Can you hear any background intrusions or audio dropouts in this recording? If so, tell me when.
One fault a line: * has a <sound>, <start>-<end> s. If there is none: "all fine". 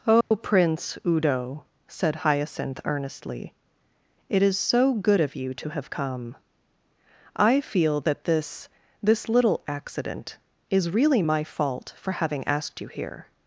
* has a dropout, 0.2-0.3 s